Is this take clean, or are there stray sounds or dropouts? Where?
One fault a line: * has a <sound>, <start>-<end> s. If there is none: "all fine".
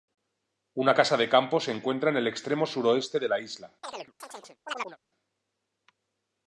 * has a chirp, 3.8-5.0 s